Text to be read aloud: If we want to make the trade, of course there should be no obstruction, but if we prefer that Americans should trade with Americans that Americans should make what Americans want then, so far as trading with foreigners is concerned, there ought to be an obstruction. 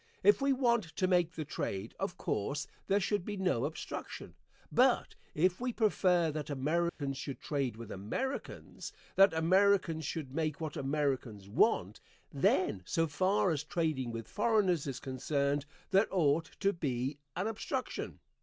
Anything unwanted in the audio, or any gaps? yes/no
yes